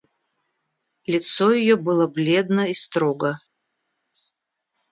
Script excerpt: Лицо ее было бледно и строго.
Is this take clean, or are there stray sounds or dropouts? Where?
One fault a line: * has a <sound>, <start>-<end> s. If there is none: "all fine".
all fine